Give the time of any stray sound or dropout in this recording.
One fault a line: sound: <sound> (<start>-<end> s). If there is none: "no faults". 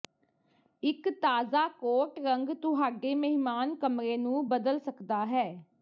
no faults